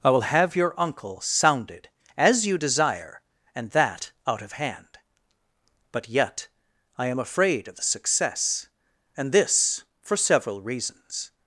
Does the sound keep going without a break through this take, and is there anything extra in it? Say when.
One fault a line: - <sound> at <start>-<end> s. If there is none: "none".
none